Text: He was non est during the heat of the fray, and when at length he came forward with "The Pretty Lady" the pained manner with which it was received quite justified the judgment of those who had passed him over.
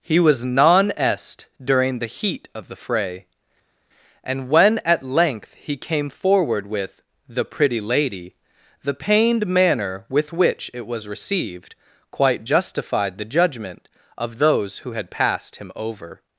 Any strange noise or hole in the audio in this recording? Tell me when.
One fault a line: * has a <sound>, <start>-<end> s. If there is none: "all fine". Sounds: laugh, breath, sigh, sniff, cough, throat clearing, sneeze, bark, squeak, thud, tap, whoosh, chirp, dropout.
all fine